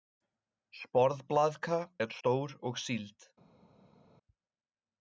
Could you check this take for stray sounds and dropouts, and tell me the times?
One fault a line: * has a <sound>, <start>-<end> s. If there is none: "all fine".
all fine